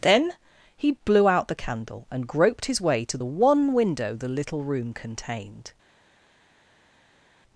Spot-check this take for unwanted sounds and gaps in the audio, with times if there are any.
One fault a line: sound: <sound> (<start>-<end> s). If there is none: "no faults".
no faults